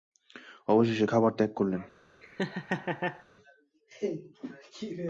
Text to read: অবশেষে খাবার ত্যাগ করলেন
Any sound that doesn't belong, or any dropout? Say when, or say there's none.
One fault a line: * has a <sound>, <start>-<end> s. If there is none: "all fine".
* has a laugh, 2.2-3.2 s